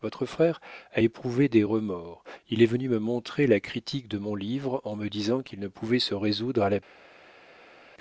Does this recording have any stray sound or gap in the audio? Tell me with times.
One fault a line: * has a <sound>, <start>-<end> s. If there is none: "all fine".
all fine